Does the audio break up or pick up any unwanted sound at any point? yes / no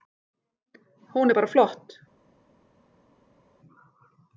no